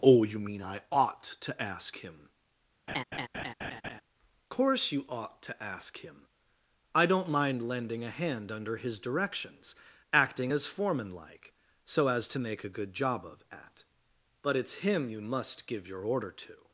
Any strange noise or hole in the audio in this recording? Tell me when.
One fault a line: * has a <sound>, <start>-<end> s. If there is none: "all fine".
* has a laugh, 2.9-4.0 s